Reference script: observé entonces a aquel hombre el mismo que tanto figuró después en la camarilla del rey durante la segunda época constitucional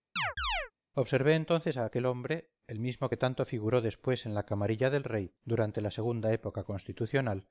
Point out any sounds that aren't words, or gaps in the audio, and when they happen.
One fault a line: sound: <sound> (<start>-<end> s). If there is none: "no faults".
sound: chirp (0.2-0.7 s)